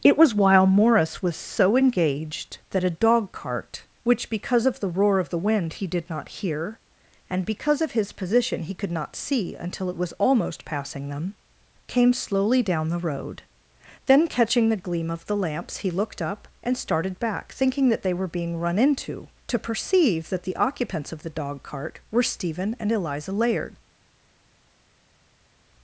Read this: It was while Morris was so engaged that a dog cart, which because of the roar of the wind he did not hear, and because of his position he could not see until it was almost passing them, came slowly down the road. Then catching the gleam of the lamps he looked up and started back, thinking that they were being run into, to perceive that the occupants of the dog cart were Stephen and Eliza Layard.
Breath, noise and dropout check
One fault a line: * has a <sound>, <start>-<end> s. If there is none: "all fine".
all fine